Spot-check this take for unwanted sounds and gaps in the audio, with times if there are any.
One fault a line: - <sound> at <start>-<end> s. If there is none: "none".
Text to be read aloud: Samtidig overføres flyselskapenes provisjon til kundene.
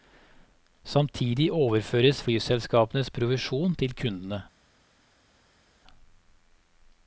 none